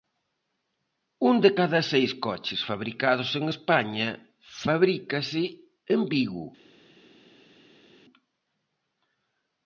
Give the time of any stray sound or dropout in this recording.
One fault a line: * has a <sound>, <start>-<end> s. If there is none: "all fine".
all fine